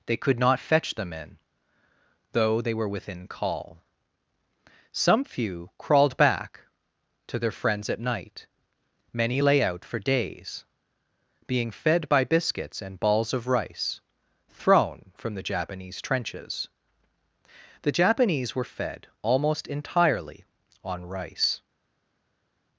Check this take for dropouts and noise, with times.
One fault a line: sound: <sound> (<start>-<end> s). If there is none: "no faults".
no faults